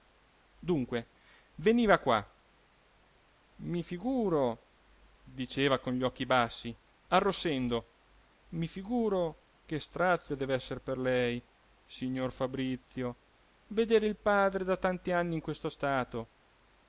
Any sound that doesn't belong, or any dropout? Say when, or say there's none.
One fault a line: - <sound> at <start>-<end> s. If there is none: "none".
none